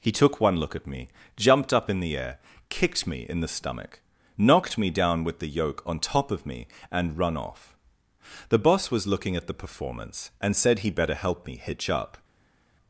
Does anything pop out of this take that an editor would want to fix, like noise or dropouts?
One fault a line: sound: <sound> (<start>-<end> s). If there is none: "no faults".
no faults